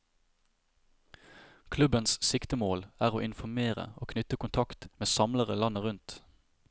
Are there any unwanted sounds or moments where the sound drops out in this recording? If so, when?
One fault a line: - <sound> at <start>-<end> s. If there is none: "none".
none